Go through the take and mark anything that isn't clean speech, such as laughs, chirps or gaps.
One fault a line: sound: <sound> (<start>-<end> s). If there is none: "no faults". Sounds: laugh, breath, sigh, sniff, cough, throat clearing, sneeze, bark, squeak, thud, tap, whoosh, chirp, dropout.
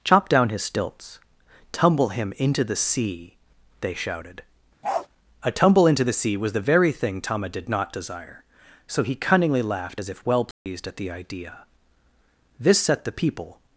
sound: bark (4.8-5.1 s)
sound: dropout (10.5-10.7 s)